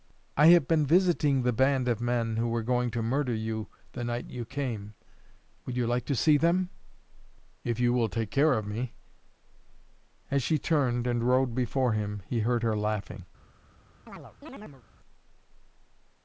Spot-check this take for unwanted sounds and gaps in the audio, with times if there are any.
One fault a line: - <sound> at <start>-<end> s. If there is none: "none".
- chirp at 14.1-14.8 s